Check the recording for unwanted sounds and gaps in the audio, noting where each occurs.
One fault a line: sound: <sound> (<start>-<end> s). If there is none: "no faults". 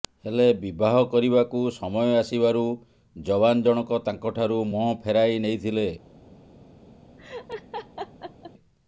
sound: laugh (7.2-8.5 s)